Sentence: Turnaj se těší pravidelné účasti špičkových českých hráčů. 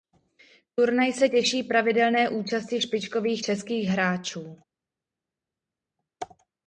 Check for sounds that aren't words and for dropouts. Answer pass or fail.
pass